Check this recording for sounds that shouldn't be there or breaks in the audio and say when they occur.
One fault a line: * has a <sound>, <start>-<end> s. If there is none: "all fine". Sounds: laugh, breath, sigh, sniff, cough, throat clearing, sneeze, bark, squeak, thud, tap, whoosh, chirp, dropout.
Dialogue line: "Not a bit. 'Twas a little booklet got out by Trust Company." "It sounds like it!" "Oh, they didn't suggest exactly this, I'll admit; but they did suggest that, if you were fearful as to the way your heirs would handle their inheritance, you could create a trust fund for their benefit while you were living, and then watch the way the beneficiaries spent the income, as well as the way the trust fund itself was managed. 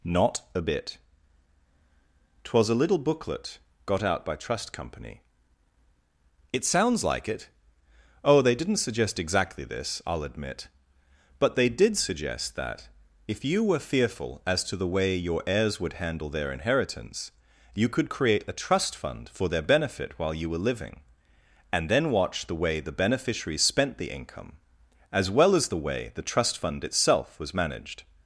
all fine